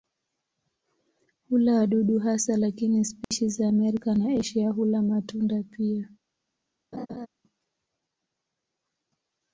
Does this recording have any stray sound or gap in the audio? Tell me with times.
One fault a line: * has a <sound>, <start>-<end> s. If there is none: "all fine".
* has a dropout, 3.2-3.3 s
* has a laugh, 6.9-7.3 s